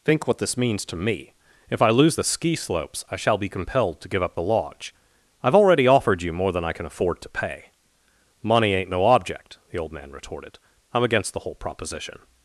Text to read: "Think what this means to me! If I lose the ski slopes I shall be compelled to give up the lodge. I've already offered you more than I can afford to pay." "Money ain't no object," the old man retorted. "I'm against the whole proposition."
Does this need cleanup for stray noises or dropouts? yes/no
no